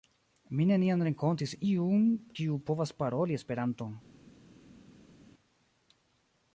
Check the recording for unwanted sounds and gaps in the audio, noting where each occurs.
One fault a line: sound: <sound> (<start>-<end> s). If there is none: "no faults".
no faults